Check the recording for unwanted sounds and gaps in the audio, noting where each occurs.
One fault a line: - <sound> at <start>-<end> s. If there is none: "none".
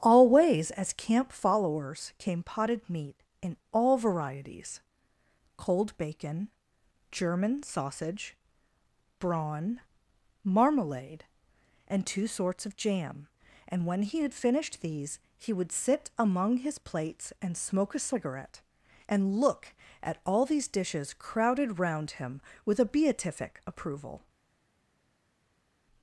none